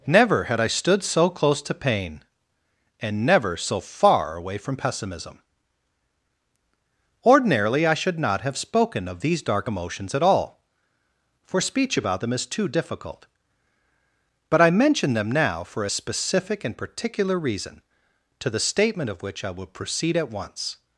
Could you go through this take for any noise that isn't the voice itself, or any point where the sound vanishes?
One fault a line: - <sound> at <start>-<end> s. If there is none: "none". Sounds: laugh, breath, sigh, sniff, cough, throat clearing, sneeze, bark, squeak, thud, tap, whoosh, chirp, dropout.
none